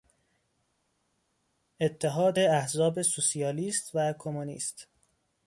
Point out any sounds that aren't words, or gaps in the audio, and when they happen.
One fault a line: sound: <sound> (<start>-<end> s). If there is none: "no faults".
no faults